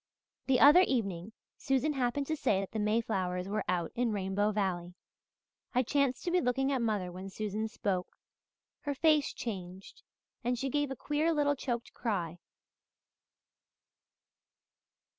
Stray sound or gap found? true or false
false